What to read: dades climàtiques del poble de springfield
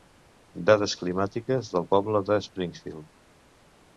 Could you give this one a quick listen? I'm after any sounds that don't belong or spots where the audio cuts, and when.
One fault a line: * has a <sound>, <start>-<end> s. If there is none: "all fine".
all fine